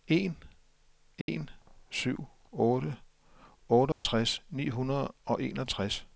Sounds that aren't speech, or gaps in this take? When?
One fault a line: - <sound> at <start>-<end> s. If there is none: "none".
- dropout at 1.2-1.3 s
- dropout at 3.9-4.1 s